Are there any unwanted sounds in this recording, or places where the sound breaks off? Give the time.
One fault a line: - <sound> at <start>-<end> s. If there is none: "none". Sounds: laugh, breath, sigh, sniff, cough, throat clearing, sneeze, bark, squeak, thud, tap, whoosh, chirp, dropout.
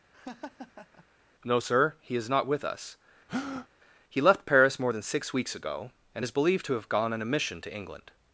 - laugh at 0.1-1.0 s
- breath at 3.3-3.7 s